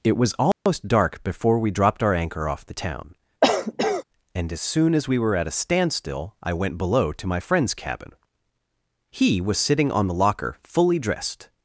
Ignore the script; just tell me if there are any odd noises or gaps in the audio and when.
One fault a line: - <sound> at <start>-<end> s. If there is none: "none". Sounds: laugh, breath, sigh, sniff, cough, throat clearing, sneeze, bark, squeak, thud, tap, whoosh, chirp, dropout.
- dropout at 0.5-0.7 s
- cough at 3.4-4.0 s